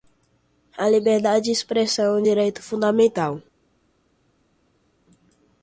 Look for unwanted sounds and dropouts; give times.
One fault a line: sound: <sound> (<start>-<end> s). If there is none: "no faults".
no faults